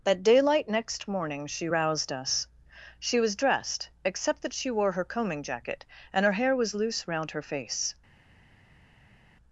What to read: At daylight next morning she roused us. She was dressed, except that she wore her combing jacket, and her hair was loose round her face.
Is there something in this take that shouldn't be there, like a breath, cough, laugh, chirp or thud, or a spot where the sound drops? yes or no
no